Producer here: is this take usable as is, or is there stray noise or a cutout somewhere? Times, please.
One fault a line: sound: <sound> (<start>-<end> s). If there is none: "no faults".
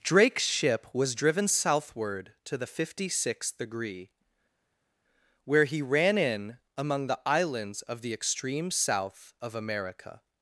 no faults